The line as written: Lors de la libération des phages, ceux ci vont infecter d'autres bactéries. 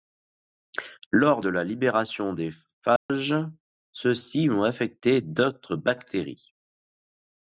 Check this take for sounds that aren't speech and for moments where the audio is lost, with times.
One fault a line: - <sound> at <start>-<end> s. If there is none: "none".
- dropout at 3.0-3.1 s